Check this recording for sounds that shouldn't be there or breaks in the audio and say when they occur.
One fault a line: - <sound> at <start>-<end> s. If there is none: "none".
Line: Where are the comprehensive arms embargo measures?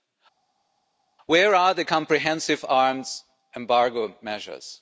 none